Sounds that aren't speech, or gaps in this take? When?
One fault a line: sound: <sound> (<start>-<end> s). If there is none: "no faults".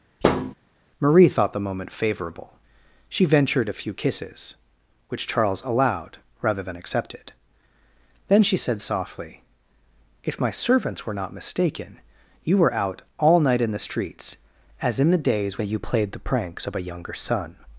sound: thud (0.2-0.5 s)